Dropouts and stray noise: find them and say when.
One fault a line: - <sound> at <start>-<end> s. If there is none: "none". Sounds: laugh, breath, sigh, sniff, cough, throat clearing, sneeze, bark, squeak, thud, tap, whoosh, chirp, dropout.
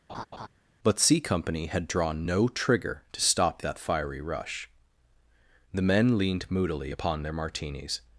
- laugh at 0.1-0.5 s